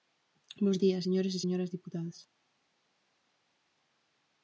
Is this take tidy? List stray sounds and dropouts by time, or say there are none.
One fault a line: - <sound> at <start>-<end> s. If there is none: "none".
none